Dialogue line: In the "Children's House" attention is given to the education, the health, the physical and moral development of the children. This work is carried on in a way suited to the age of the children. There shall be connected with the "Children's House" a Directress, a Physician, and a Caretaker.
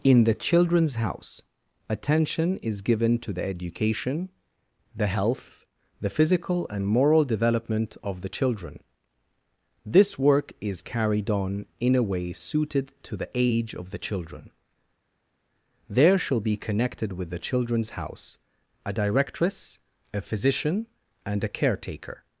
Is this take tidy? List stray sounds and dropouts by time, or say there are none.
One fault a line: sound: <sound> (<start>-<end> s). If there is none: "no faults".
no faults